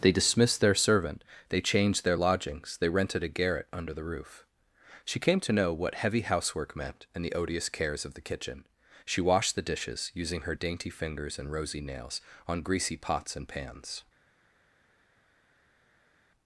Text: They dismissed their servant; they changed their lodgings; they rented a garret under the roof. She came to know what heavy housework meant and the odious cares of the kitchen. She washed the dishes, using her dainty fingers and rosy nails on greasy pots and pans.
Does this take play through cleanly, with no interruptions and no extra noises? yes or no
yes